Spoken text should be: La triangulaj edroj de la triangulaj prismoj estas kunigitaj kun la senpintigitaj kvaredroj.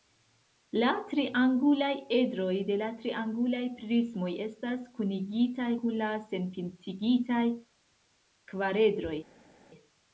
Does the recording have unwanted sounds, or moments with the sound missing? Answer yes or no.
no